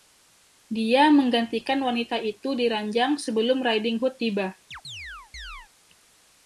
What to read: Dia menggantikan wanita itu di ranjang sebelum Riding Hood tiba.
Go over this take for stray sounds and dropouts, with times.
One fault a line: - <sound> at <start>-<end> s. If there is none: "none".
- chirp at 4.7-5.7 s